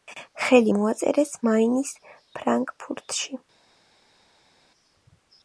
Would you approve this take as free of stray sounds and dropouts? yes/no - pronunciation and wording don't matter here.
yes